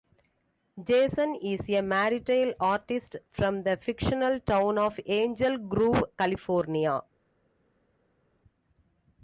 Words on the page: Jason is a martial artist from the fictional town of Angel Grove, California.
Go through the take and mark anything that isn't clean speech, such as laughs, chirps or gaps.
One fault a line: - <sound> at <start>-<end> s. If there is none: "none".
none